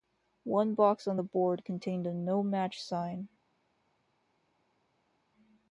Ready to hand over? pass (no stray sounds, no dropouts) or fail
pass